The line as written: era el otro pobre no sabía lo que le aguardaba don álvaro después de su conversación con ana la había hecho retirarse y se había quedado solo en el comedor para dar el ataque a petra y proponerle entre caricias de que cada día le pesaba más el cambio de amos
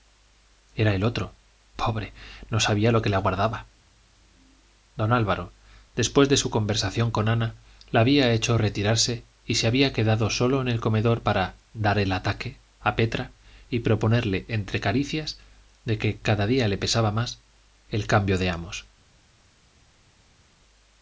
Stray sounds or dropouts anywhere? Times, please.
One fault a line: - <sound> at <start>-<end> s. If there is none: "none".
none